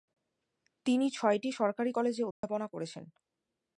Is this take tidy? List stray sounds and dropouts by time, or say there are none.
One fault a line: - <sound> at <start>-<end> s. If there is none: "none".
- dropout at 2.3-2.4 s